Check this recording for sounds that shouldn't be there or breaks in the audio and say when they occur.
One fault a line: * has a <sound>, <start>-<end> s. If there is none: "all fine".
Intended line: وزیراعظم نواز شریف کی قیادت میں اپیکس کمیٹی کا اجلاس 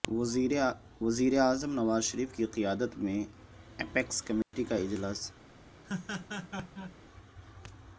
* has a dropout, 4.4-4.5 s
* has a laugh, 5.8-7.0 s